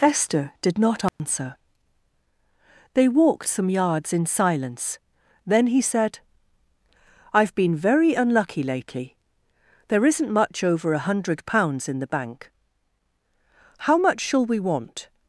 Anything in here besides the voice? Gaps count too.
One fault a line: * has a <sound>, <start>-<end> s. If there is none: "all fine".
* has a dropout, 1.1-1.2 s